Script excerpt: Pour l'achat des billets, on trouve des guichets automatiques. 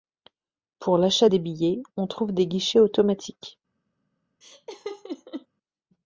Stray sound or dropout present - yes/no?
yes